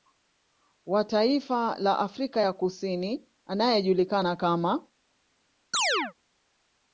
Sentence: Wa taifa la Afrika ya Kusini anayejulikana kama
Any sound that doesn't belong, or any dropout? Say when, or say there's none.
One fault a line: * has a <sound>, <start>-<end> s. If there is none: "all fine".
* has a chirp, 5.7-6.1 s